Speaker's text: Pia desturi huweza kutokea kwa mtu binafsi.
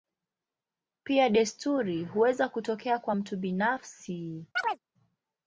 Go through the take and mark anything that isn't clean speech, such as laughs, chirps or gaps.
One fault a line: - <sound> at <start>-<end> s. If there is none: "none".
- chirp at 4.6-4.8 s